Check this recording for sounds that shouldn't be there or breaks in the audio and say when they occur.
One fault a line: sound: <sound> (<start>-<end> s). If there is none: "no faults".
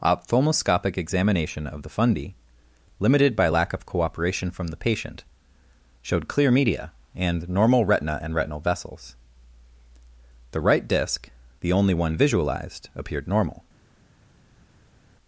no faults